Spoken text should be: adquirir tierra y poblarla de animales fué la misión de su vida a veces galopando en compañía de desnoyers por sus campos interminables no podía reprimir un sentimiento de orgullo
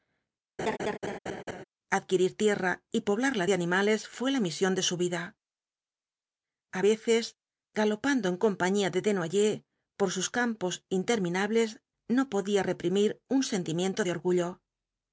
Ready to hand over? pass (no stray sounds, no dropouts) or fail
fail